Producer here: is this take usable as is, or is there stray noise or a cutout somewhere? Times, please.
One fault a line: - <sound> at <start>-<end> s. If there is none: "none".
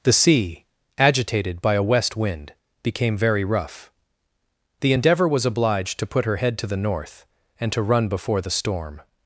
none